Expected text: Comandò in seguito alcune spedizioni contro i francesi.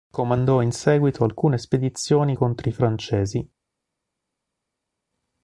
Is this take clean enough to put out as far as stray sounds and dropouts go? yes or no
yes